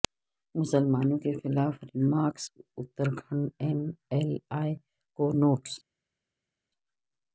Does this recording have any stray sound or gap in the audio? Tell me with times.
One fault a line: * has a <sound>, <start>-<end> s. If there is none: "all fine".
all fine